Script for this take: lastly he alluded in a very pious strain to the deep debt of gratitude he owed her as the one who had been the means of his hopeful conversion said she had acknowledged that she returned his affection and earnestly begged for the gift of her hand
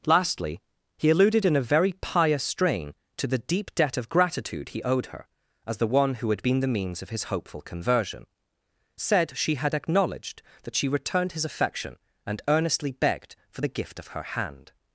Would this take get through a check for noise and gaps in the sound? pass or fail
pass